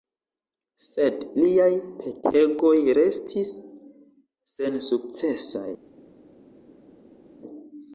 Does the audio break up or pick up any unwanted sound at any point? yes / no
no